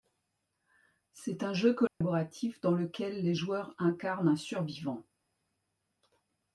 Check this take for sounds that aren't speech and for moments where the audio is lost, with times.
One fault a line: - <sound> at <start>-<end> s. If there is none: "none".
- dropout at 1.9-2.0 s